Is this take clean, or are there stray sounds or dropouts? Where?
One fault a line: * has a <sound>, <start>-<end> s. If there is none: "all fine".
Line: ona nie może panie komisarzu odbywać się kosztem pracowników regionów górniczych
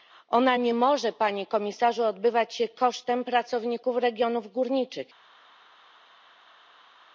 all fine